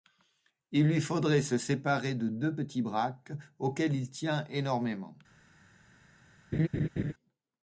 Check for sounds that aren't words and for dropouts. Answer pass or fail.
fail